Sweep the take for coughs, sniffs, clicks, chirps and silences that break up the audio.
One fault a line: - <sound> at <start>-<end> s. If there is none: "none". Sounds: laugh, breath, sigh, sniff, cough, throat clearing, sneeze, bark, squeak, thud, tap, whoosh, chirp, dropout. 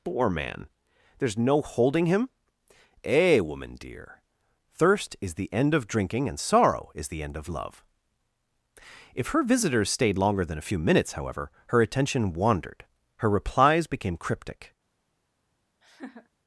- laugh at 15.8-16.3 s